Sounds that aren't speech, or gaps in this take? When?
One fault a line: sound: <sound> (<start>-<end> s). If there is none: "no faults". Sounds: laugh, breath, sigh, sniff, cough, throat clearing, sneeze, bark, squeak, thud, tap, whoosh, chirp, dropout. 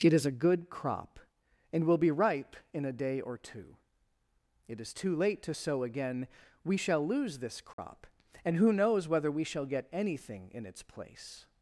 sound: dropout (7.7-7.8 s)